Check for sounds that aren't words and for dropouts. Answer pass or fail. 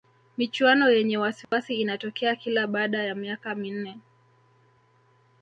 fail